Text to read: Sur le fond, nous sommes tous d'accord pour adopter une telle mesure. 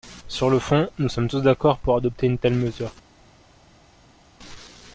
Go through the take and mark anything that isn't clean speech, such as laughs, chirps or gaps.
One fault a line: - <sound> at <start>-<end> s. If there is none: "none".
none